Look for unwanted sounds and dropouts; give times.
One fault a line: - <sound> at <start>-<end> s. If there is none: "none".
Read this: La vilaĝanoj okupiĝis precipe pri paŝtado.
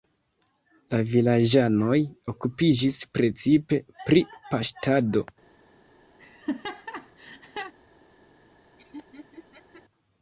- laugh at 6.2-7.7 s
- laugh at 8.8-9.8 s